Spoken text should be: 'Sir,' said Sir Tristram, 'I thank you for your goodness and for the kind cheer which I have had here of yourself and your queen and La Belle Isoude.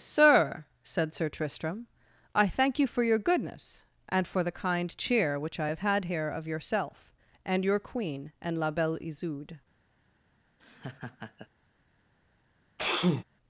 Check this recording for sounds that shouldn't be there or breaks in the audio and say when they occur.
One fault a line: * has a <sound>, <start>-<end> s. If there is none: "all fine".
* has a laugh, 10.6-11.5 s
* has a sneeze, 12.8-13.2 s